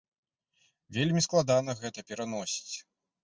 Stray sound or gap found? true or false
false